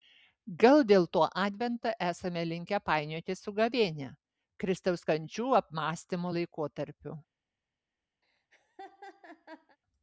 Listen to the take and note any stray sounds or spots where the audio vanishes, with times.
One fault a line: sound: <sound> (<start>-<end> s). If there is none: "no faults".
sound: laugh (8.2-9.8 s)